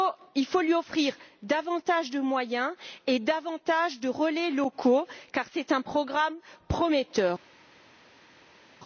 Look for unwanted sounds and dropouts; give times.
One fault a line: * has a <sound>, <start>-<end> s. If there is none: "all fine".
all fine